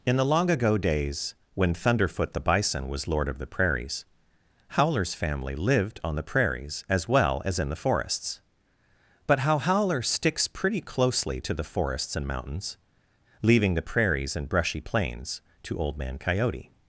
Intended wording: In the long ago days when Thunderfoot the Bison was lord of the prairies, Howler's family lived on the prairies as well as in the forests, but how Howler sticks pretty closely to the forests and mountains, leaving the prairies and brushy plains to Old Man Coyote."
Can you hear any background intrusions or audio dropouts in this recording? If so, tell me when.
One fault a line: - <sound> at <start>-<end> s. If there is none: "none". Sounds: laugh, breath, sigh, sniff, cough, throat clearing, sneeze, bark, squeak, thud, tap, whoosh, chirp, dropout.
none